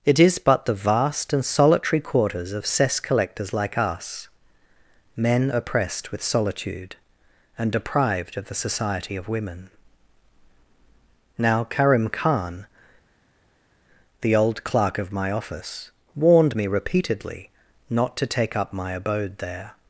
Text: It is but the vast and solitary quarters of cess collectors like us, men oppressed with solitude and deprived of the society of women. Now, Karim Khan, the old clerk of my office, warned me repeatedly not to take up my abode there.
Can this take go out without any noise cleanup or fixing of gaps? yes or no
yes